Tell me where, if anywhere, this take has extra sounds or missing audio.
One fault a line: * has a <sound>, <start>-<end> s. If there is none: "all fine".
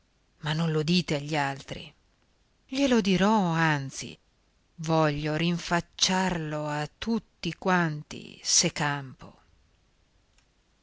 all fine